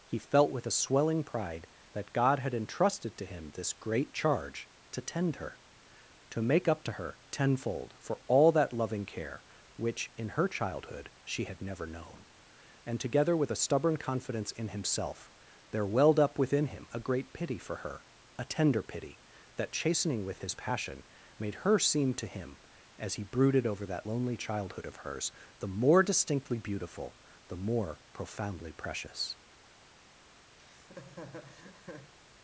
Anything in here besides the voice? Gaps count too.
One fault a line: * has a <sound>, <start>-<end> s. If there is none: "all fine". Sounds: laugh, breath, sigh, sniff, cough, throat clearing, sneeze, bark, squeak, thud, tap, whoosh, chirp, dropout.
* has a laugh, 30.6-32.1 s